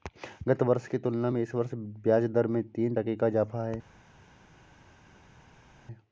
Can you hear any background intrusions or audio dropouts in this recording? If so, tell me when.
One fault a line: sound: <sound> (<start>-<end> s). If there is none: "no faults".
no faults